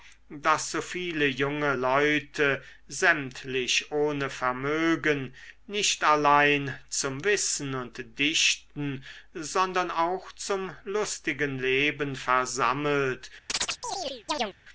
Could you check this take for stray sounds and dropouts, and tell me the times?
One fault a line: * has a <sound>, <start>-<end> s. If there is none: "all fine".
* has a chirp, 13.5-14.6 s